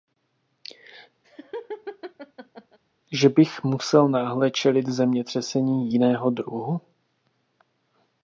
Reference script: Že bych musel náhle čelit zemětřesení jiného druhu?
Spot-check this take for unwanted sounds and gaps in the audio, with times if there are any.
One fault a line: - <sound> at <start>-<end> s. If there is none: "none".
- laugh at 1.2-2.8 s